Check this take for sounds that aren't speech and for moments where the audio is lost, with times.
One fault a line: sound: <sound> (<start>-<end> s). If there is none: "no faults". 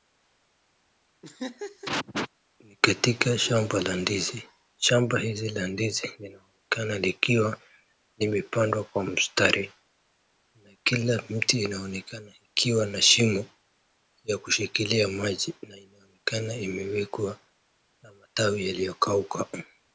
sound: laugh (1.2-2.3 s)